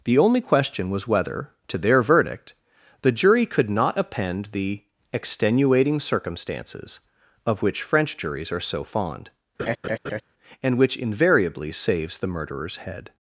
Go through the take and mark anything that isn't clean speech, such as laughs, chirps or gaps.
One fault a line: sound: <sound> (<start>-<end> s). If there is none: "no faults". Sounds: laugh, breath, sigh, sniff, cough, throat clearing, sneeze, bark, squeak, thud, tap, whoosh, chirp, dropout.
sound: laugh (9.6-10.2 s)